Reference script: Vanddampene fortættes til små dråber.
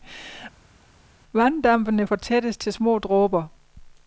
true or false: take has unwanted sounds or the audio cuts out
false